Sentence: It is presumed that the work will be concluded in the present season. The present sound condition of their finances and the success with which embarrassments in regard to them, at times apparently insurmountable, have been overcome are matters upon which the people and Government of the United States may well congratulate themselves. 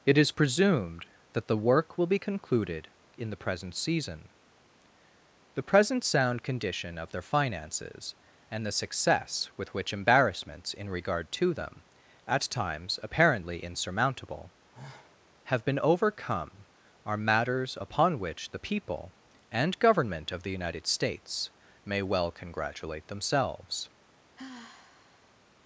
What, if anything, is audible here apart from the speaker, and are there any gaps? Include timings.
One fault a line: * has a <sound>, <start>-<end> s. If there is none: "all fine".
* has a sigh, 14.7-15.2 s
* has a sigh, 24.3-25.4 s